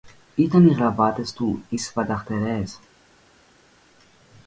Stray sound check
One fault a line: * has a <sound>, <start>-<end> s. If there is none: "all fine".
all fine